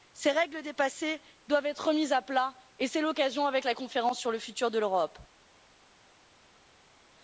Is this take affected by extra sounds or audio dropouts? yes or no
no